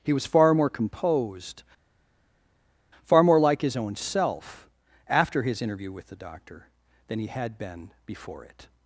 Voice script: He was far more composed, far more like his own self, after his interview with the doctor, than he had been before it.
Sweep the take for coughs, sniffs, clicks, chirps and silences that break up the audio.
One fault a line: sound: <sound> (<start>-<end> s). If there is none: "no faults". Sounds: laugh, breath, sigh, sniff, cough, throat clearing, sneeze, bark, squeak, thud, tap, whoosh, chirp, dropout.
no faults